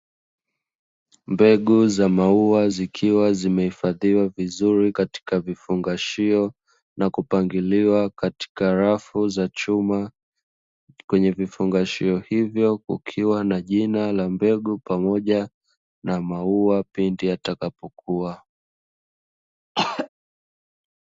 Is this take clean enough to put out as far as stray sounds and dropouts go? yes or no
no